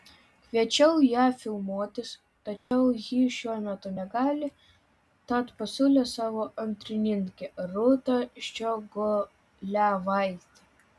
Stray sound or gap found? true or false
true